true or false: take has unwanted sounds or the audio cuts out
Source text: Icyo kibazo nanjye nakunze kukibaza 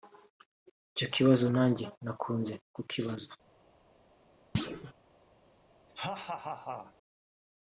true